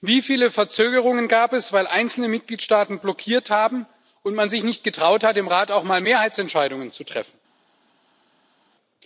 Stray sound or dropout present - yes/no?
no